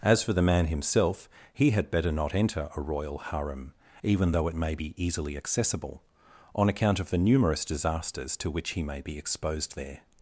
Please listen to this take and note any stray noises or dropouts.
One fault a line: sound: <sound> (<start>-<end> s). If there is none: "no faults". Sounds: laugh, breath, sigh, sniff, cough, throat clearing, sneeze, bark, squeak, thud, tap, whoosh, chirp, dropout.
no faults